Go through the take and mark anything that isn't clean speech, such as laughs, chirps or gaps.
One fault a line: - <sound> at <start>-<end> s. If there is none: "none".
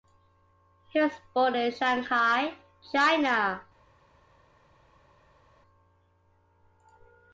none